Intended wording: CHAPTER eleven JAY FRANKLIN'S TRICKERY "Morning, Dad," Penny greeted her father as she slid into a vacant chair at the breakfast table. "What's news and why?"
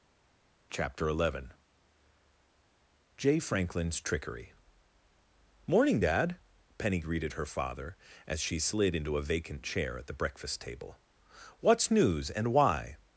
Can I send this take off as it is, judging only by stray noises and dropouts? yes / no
yes